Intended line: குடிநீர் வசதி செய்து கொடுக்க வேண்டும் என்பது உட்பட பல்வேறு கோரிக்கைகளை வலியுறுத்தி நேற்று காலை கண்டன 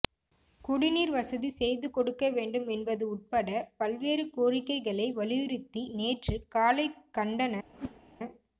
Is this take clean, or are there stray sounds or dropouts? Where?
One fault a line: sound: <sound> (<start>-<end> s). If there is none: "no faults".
sound: whoosh (7.7-8.0 s)